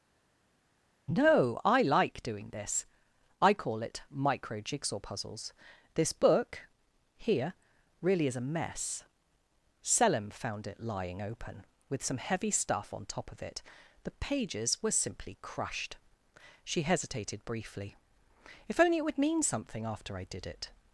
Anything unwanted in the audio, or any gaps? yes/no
no